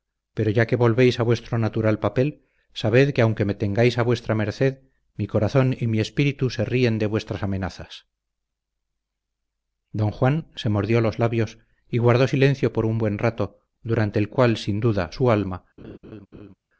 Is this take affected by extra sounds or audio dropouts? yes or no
yes